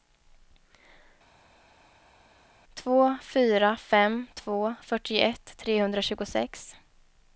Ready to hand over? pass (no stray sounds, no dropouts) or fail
pass